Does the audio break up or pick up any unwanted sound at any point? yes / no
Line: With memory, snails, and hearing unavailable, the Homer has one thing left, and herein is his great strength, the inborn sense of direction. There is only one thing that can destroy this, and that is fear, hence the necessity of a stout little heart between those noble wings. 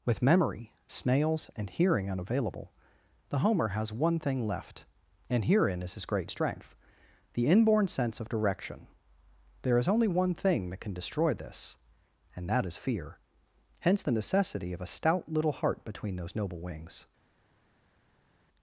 no